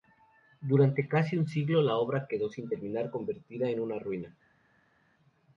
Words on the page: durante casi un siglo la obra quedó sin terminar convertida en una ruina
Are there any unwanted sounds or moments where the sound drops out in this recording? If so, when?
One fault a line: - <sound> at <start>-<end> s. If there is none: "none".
none